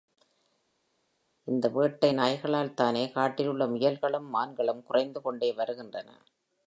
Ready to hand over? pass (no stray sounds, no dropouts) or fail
pass